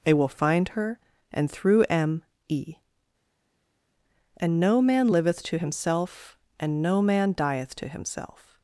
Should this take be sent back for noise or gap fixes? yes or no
no